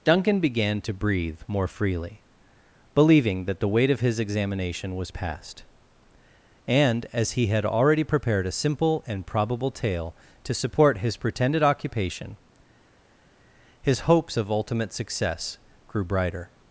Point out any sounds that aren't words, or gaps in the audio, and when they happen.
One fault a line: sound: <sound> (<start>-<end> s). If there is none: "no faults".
no faults